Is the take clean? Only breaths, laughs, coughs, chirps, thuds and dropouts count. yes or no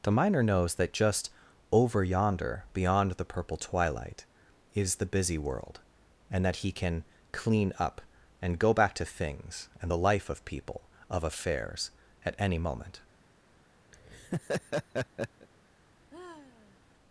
no